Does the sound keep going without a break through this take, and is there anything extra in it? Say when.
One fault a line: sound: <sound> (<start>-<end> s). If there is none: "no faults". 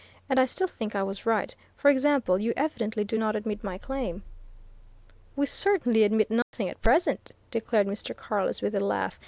sound: dropout (6.4-6.5 s)